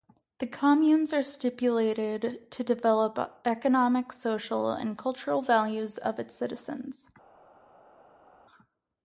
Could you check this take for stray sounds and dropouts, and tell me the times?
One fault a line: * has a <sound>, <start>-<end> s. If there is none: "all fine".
all fine